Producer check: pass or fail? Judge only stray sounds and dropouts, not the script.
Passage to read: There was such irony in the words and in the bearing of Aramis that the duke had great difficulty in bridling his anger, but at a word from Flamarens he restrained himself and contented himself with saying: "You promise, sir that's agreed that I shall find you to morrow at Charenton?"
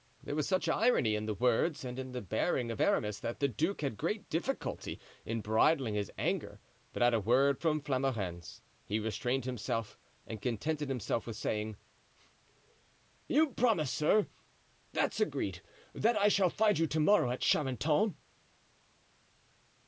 pass